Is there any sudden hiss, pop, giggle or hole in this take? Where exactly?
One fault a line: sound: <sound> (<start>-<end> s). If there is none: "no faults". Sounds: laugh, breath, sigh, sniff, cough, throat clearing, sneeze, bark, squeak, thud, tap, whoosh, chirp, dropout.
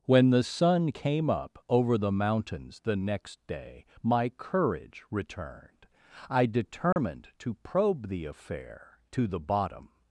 sound: dropout (6.9-7.0 s)